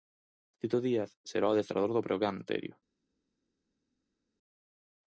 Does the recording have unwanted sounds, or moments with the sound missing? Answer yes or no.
no